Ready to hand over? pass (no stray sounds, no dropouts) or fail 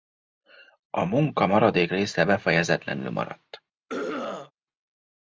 fail